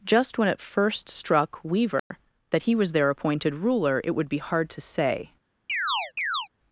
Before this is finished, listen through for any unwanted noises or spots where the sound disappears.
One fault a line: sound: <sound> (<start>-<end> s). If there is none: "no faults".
sound: dropout (2.0-2.1 s)
sound: chirp (5.7-6.5 s)